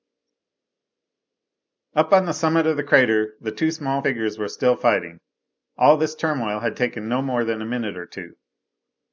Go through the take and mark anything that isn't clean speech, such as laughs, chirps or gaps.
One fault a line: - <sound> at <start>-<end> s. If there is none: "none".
none